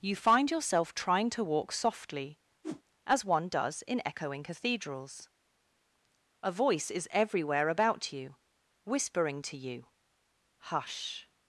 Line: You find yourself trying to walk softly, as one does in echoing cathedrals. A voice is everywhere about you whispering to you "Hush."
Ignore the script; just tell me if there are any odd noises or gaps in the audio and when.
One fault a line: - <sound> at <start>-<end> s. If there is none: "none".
- whoosh at 2.6-2.8 s